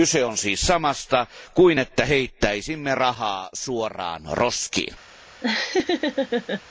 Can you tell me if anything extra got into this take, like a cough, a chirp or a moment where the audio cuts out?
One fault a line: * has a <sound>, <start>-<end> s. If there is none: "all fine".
* has a laugh, 5.4-6.6 s